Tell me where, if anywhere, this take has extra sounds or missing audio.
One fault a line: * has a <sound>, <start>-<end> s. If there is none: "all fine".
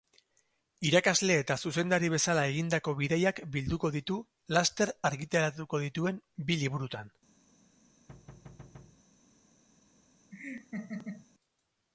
* has a thud, 8.1-9.0 s
* has a laugh, 10.3-11.3 s